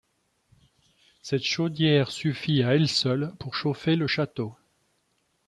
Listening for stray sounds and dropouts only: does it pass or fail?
pass